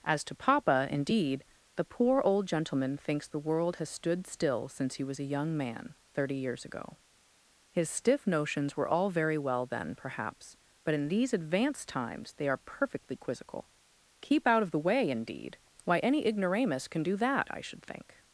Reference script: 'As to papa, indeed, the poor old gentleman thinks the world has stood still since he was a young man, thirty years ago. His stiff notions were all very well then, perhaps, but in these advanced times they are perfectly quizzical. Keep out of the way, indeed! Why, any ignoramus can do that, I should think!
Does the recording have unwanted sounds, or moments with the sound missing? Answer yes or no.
no